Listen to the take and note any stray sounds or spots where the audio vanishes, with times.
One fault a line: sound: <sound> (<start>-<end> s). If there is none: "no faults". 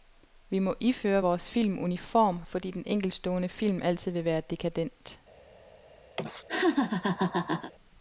sound: laugh (6.2-7.7 s)